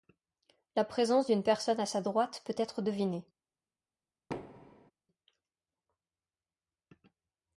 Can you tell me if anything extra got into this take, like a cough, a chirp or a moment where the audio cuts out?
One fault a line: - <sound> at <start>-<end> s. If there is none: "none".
- thud at 4.3-4.9 s